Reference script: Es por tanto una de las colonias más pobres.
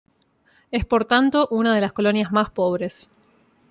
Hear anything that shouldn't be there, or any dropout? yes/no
no